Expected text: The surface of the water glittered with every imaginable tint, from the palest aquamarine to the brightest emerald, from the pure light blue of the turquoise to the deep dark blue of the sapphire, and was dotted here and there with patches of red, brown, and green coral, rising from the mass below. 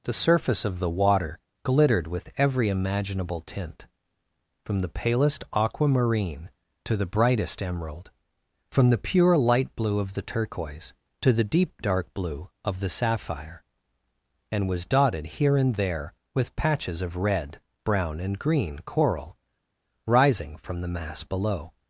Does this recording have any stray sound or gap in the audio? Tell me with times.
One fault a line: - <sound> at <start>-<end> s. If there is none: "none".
none